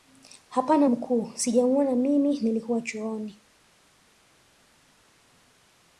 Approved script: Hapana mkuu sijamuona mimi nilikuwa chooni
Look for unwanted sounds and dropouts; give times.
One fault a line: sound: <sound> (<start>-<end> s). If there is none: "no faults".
no faults